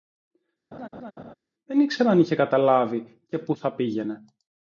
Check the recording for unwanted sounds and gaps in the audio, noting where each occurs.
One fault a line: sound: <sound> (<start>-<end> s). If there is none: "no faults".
sound: laugh (0.7-1.3 s)